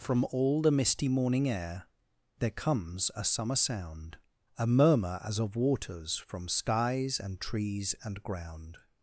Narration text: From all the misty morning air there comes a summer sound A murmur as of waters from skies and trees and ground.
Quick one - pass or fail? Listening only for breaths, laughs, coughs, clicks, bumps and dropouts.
pass